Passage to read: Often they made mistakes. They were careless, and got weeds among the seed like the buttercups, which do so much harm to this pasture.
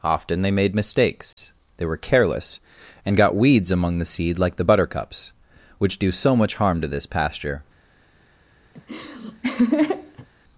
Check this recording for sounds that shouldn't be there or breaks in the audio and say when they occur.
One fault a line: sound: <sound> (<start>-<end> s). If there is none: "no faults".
sound: dropout (1.3-1.4 s)
sound: laugh (8.8-10.3 s)